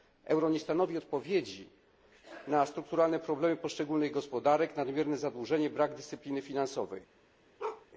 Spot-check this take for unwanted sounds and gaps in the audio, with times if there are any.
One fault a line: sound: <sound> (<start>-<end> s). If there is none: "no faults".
sound: bark (7.6-7.9 s)